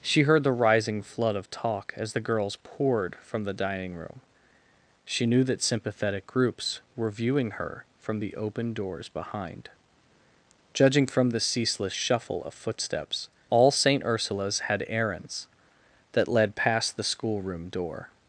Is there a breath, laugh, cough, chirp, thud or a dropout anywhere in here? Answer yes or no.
no